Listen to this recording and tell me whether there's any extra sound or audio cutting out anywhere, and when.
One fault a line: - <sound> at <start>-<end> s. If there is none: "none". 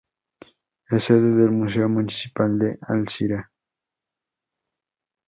none